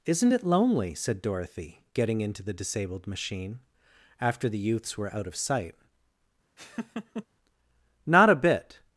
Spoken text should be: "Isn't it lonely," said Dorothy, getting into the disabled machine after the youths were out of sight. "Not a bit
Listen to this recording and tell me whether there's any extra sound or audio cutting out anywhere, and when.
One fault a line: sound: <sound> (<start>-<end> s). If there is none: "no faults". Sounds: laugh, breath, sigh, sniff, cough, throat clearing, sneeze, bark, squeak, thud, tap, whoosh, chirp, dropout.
sound: laugh (6.6-7.3 s)